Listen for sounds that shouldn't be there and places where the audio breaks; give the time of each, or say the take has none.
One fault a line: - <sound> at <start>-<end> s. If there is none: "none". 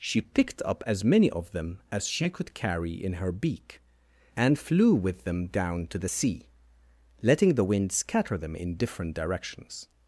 none